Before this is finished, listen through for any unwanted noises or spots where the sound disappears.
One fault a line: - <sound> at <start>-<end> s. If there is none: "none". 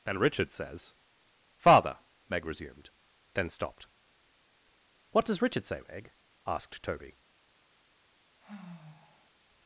- sigh at 8.4-9.3 s